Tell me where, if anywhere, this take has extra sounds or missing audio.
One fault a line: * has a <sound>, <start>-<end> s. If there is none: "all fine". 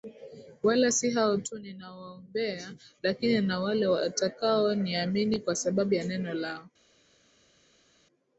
all fine